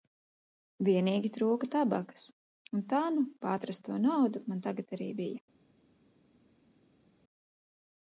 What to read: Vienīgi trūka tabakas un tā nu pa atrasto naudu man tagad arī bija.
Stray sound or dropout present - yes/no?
no